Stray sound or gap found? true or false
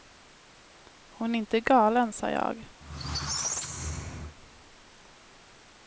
true